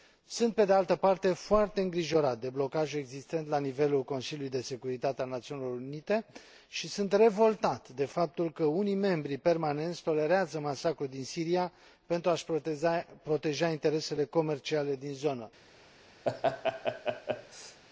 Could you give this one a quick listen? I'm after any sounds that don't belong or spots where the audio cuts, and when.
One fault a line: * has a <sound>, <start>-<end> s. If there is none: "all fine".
* has a laugh, 16.2-17.8 s